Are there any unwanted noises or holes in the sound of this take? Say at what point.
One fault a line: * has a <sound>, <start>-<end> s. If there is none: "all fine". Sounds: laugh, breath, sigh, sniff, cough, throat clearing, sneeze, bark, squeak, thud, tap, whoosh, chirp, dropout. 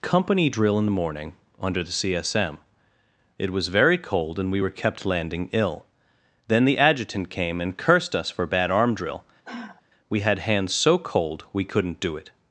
* has a sigh, 9.4-9.8 s